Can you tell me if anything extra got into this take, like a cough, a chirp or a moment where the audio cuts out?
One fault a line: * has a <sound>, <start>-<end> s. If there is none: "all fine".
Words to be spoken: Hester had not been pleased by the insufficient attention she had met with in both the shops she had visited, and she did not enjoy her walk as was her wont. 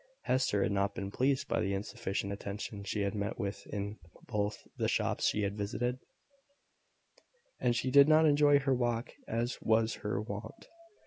all fine